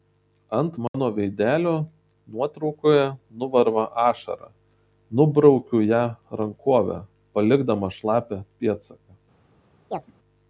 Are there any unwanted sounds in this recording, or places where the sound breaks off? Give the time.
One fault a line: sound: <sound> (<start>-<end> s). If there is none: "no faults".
sound: dropout (0.9-0.9 s)
sound: chirp (9.9-10.1 s)